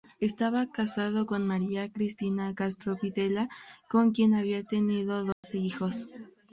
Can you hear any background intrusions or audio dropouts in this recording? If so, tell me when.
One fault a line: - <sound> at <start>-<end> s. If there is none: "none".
- dropout at 5.3-5.4 s